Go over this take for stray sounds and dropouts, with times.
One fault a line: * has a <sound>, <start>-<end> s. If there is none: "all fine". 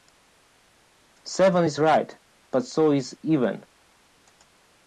all fine